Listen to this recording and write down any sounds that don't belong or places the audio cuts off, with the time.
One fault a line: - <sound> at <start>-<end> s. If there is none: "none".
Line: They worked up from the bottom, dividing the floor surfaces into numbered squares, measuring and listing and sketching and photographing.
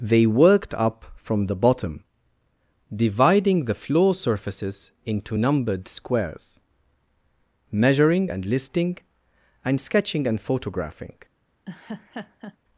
- laugh at 11.7-12.6 s